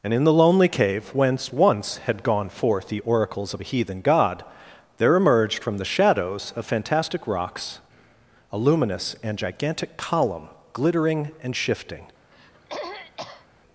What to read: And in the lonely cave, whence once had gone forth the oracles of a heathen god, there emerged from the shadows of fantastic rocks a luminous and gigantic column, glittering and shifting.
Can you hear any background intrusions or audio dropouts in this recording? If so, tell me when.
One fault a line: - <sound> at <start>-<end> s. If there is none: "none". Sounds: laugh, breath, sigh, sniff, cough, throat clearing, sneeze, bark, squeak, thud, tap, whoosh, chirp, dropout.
- throat clearing at 12.3-13.5 s